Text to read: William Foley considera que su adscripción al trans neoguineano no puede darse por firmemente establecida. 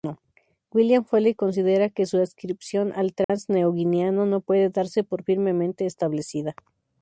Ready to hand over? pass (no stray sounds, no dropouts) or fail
fail